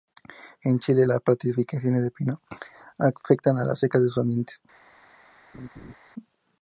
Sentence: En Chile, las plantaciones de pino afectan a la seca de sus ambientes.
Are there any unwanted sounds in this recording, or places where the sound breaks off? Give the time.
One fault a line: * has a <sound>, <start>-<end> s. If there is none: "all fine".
* has a laugh, 5.5-5.9 s